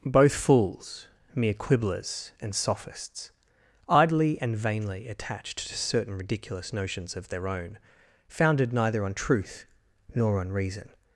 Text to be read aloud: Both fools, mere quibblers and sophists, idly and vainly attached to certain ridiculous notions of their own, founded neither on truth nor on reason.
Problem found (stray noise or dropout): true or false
false